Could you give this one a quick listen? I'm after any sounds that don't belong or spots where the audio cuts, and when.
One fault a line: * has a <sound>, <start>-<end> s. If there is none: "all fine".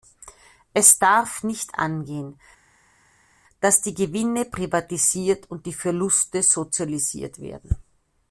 all fine